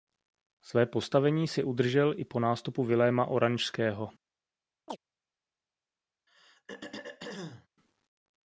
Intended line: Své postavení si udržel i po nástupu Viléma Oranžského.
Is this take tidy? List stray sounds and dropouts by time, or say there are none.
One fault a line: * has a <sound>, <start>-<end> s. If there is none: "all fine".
* has a chirp, 4.9-5.0 s
* has a throat clearing, 6.3-7.7 s